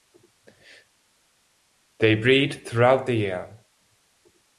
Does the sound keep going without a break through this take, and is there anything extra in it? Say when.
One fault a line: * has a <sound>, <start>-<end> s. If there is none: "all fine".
all fine